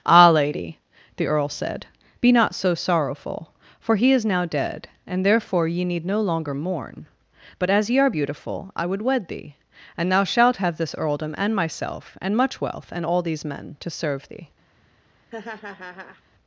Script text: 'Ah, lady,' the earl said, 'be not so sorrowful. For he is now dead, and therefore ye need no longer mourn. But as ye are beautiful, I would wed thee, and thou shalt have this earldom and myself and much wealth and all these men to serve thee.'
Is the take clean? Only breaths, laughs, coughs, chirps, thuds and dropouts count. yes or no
no